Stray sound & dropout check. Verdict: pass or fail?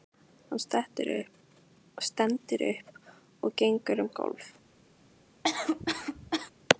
fail